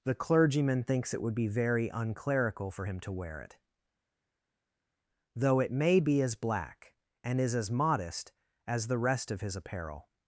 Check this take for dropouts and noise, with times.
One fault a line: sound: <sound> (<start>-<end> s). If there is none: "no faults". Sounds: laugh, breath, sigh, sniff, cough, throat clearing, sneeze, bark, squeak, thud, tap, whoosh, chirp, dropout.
no faults